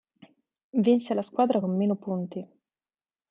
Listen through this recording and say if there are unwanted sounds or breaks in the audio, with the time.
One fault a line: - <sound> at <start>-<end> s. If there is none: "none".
none